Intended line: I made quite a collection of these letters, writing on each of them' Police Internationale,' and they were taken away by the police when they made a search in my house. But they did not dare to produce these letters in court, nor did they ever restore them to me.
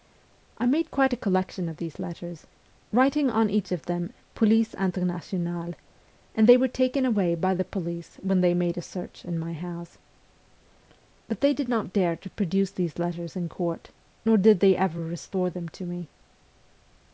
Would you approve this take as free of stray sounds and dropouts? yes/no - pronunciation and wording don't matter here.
yes